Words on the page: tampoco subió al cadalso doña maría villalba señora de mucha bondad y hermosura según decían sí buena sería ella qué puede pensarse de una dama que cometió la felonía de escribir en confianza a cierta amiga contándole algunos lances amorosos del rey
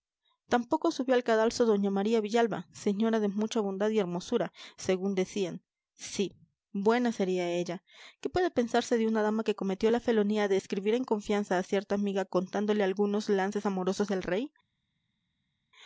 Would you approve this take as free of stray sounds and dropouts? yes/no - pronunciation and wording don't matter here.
yes